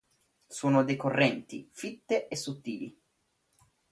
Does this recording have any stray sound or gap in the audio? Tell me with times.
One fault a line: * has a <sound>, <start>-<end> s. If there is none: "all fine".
all fine